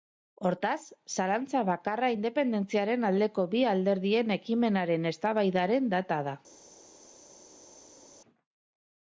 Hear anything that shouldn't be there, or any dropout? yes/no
no